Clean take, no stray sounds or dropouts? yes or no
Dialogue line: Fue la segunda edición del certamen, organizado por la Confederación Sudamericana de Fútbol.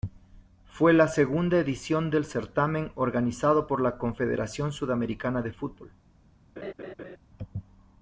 no